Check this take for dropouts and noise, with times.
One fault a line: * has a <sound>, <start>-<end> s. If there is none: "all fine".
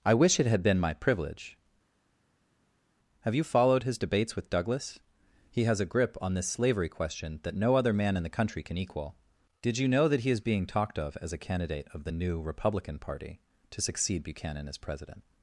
all fine